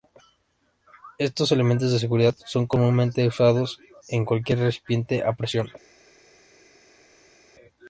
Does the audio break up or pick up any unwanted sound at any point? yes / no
no